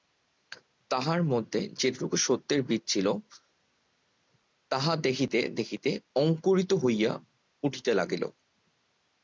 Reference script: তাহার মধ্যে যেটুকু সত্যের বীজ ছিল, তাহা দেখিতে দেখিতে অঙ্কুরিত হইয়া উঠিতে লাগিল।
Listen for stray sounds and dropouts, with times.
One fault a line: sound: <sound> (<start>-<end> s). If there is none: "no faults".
no faults